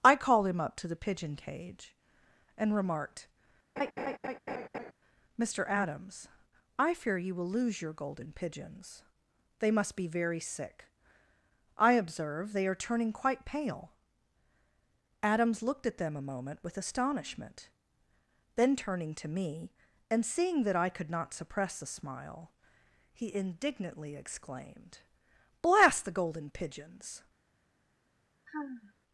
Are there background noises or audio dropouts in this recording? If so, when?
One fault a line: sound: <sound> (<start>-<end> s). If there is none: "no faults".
sound: laugh (3.8-4.9 s)
sound: sigh (28.5-28.9 s)